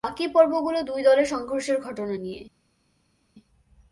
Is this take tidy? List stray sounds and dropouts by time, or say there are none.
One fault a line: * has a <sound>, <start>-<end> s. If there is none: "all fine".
all fine